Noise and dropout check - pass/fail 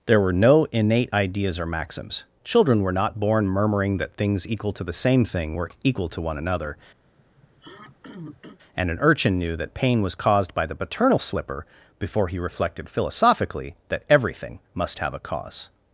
fail